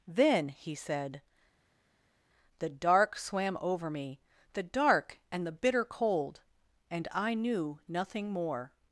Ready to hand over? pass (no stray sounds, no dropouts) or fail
pass